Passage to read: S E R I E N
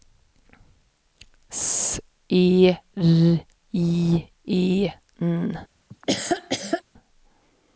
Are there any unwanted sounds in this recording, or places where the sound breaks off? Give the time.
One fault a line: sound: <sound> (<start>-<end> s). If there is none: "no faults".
sound: laugh (5.9-6.8 s)